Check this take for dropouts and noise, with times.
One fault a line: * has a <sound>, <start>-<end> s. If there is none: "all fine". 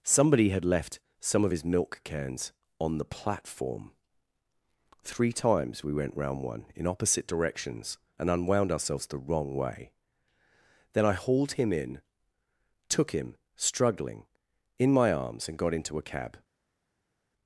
all fine